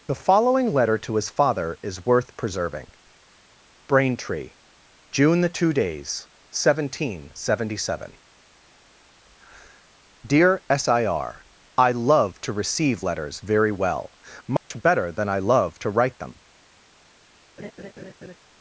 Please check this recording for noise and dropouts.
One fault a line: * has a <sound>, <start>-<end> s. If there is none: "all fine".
* has a dropout, 14.6-14.7 s
* has a laugh, 17.6-18.4 s